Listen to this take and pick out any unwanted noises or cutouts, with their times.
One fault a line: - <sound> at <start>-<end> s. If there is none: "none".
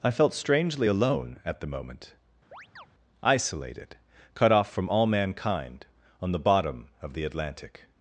- chirp at 2.5-2.9 s